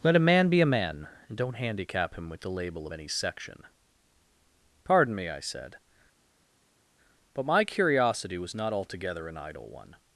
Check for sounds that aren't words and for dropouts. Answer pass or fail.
pass